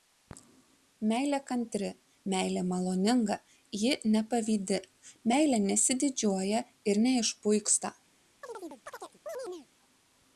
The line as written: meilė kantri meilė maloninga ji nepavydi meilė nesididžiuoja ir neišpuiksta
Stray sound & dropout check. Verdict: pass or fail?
fail